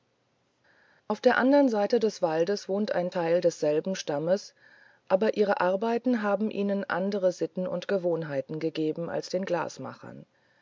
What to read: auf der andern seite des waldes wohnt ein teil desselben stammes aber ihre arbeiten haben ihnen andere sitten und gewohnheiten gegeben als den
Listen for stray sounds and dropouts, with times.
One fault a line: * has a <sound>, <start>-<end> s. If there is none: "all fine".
all fine